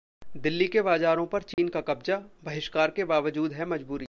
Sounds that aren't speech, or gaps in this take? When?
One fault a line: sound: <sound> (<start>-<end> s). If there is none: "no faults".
sound: dropout (1.5-1.6 s)